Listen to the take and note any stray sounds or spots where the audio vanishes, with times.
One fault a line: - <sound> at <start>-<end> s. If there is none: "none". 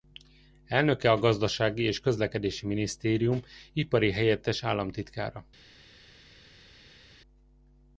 none